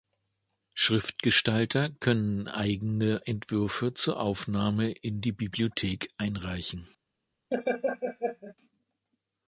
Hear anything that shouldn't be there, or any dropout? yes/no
yes